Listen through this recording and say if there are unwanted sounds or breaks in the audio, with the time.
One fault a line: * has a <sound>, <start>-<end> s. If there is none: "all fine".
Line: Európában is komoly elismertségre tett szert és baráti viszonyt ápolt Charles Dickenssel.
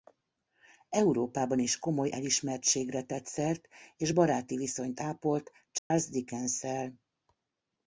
* has a dropout, 5.8-5.9 s